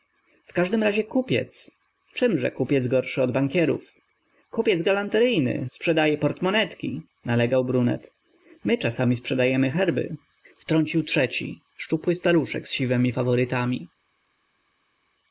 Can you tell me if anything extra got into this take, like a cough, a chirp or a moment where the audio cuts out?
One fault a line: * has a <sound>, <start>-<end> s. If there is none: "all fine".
all fine